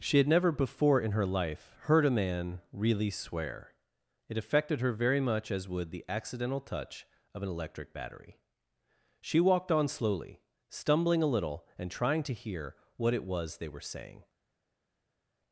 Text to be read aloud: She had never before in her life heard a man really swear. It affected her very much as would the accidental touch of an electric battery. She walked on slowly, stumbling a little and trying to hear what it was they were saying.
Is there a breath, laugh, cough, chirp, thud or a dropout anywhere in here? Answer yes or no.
no